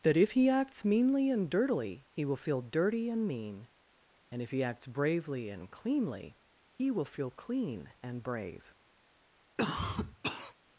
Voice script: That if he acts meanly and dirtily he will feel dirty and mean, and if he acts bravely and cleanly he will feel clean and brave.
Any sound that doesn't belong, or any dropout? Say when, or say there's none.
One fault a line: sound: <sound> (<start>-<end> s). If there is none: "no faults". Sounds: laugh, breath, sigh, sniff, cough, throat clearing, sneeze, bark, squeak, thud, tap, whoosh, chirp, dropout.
sound: cough (9.6-10.5 s)